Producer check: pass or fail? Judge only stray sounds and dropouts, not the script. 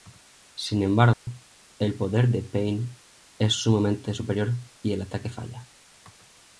fail